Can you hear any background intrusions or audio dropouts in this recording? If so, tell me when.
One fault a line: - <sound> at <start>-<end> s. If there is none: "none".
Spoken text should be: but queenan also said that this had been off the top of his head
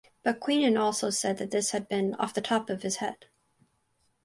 none